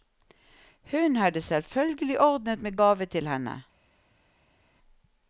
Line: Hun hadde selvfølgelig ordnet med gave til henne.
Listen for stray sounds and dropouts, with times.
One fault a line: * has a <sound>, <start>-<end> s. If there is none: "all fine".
all fine